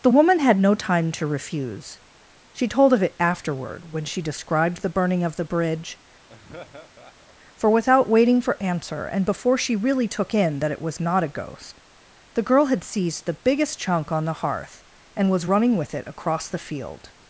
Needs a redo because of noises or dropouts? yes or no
yes